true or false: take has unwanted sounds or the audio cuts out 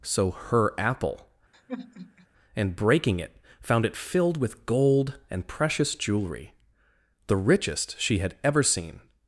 true